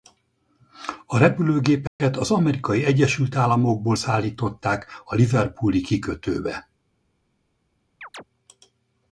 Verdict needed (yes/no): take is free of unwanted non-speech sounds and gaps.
no